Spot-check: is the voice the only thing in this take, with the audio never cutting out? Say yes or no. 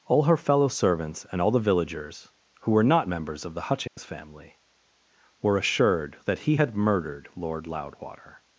no